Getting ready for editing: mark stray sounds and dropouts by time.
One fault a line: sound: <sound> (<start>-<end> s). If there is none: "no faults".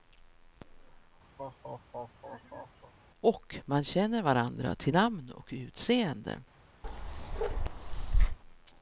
sound: laugh (1.4-2.9 s)
sound: bark (6.8-8.4 s)